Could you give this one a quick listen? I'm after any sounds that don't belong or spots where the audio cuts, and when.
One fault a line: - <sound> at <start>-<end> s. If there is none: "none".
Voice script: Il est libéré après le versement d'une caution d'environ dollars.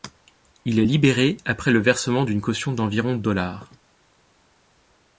none